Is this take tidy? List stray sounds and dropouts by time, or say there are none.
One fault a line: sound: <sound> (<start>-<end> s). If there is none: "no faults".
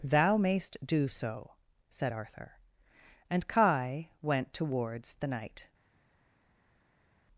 no faults